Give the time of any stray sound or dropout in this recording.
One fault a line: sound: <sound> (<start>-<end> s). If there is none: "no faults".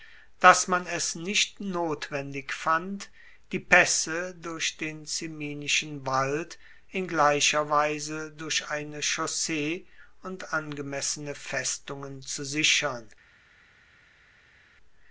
no faults